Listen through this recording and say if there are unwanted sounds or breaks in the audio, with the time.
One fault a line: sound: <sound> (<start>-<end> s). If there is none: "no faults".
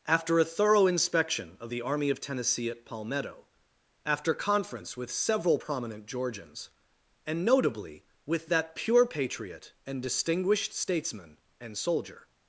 no faults